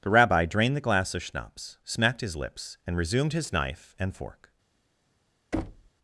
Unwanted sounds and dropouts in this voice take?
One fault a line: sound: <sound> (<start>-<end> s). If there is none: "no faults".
sound: thud (5.5-5.9 s)